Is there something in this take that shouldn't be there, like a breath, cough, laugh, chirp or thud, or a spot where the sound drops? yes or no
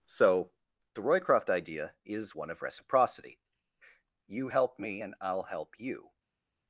no